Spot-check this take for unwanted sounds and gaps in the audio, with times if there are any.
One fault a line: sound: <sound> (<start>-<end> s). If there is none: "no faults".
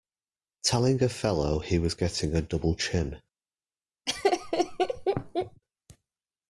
sound: laugh (4.1-5.6 s)